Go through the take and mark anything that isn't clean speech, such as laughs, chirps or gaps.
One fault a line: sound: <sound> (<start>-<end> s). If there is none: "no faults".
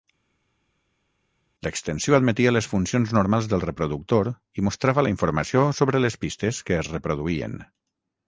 no faults